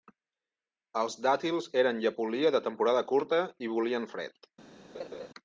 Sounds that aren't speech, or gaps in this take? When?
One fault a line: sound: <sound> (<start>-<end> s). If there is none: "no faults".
sound: laugh (4.9-5.3 s)